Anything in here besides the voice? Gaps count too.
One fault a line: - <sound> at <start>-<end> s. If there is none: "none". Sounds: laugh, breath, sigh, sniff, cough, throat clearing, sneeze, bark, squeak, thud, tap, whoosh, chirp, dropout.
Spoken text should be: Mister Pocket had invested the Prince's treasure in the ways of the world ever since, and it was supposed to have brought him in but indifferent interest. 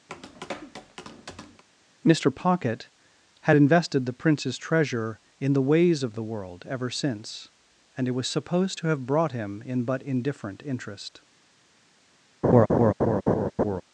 - tap at 0.1-1.6 s
- laugh at 12.4-13.8 s